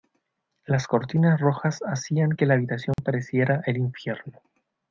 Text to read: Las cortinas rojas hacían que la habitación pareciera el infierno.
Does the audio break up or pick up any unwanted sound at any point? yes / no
yes